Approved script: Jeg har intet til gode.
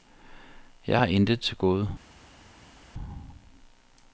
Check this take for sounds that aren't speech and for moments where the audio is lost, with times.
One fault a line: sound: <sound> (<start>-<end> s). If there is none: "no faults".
no faults